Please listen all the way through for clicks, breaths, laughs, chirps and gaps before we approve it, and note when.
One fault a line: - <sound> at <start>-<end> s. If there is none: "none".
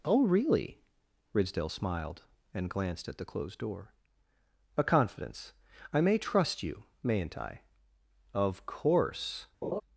- laugh at 9.6-9.8 s